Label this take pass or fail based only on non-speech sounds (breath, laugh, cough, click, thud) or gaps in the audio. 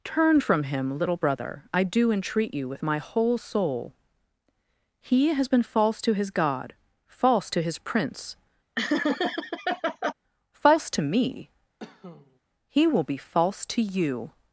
fail